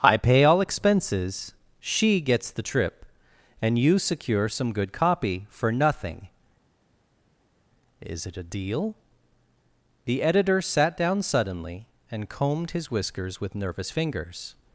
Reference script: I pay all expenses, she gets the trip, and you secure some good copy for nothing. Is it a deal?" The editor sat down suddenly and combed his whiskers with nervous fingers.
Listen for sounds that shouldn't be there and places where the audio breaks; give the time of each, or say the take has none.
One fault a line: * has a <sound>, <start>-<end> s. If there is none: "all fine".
all fine